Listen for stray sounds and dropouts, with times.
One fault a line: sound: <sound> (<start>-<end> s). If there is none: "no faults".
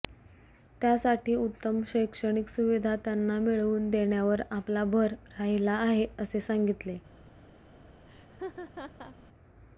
sound: laugh (8.1-9.2 s)